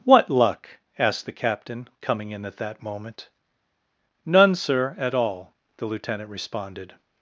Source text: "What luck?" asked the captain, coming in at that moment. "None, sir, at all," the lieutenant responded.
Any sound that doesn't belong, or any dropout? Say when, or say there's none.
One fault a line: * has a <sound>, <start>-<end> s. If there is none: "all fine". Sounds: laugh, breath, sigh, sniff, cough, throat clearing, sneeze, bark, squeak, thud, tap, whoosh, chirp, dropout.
all fine